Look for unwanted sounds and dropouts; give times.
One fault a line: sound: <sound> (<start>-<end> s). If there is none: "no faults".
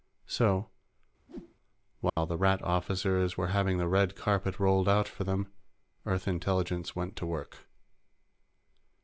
sound: whoosh (1.3-1.6 s)
sound: dropout (2.1-2.2 s)